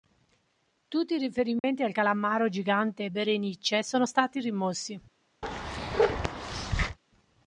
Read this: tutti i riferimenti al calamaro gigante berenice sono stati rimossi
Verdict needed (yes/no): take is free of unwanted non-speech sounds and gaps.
no